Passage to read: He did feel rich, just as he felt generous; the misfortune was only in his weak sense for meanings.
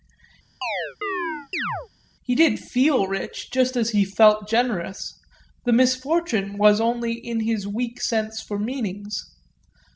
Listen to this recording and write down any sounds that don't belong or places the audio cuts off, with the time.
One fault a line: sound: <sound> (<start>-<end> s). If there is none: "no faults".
sound: chirp (0.6-1.9 s)